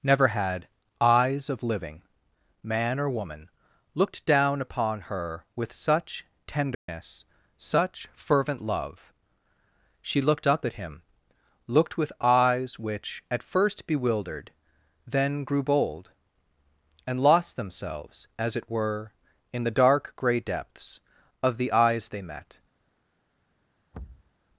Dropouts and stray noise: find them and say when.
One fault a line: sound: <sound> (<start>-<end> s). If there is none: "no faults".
sound: dropout (6.7-6.9 s)
sound: thud (23.9-24.3 s)